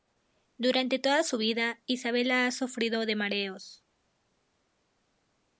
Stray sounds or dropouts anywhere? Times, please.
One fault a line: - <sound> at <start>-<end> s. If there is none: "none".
none